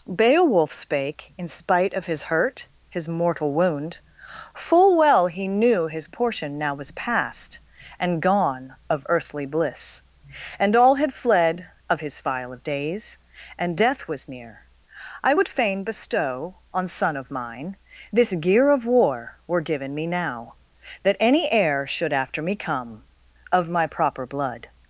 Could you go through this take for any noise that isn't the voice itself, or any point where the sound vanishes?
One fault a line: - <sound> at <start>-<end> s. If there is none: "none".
none